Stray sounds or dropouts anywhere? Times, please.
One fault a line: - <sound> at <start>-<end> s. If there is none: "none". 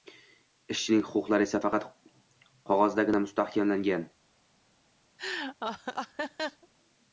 - laugh at 5.2-6.7 s